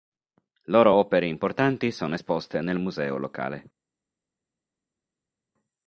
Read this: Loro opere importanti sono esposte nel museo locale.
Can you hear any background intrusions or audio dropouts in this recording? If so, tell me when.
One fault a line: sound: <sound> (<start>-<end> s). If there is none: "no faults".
no faults